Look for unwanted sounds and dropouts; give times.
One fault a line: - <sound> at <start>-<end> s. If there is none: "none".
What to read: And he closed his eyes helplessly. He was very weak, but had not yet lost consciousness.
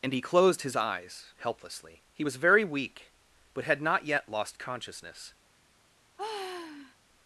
- sigh at 6.2-7.0 s